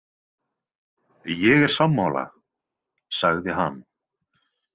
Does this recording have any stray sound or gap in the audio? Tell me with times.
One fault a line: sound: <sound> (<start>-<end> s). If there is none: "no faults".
no faults